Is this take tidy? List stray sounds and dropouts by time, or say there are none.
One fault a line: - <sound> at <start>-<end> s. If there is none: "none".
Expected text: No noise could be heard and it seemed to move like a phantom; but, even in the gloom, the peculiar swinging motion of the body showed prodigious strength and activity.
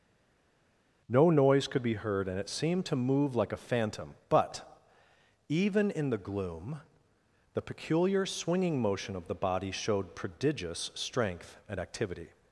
none